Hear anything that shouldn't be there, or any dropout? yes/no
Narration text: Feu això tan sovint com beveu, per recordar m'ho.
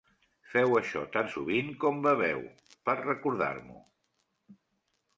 no